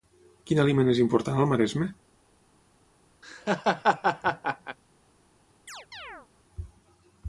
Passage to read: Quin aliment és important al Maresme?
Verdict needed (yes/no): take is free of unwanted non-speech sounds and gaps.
no